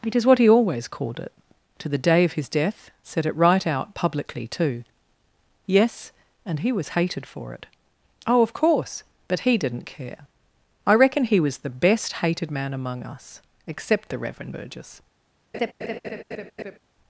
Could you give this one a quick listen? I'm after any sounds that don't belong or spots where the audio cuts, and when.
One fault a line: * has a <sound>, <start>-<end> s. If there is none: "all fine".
* has a laugh, 15.5-16.8 s